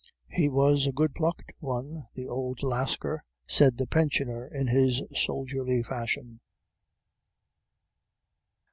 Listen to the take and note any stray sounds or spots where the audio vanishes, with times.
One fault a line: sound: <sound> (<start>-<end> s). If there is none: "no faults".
no faults